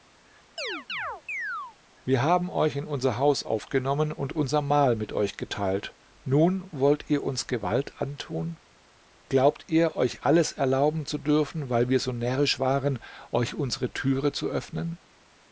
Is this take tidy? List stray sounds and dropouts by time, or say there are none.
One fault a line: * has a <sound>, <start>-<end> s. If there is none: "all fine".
* has a chirp, 0.6-1.8 s